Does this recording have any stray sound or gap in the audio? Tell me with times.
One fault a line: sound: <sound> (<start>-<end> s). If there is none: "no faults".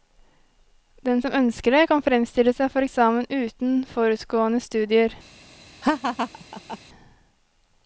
sound: laugh (5.8-6.8 s)